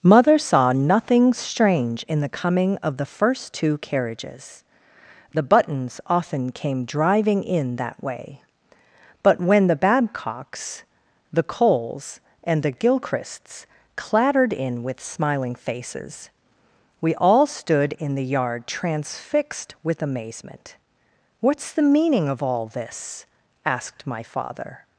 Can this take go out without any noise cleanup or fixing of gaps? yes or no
yes